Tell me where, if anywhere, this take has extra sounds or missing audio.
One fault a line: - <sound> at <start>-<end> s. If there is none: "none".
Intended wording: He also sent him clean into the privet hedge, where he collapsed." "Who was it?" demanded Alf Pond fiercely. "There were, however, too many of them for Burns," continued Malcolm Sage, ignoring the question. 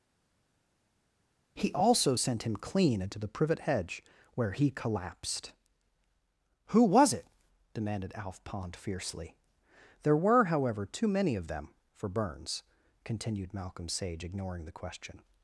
none